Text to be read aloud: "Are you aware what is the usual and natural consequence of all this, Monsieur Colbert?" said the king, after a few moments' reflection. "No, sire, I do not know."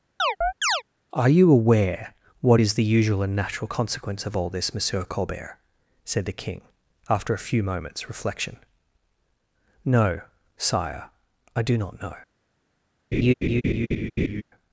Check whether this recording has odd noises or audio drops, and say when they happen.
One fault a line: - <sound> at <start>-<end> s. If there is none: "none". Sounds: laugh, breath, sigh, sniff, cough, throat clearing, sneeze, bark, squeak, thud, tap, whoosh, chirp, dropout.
- chirp at 0.2-0.8 s
- laugh at 13.1-14.4 s